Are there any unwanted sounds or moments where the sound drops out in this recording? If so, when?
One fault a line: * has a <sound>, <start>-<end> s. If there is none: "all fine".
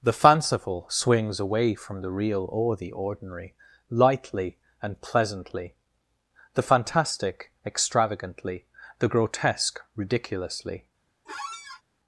* has a squeak, 11.3-11.8 s